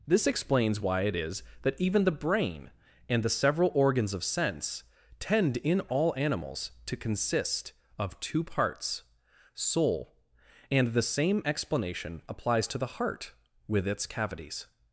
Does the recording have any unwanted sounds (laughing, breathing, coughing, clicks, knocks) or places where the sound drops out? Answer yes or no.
no